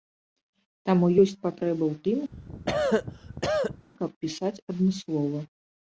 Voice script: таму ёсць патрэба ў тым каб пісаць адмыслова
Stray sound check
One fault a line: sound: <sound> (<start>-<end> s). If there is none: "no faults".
sound: cough (2.3-3.9 s)